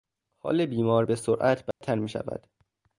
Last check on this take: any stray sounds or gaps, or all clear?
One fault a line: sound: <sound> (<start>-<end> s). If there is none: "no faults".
sound: dropout (1.7-1.8 s)